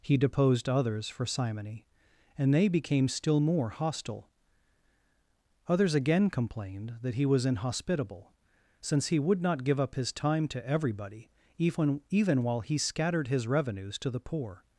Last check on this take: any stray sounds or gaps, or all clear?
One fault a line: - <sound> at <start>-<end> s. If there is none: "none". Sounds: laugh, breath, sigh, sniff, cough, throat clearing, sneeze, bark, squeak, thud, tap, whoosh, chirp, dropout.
none